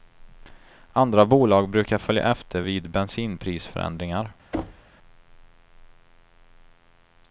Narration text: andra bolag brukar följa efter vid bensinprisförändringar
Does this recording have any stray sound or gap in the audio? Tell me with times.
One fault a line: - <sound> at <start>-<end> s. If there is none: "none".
- thud at 4.5-4.9 s